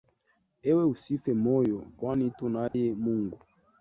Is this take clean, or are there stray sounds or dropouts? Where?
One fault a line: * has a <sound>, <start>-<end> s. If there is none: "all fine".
* has a dropout, 2.7-2.7 s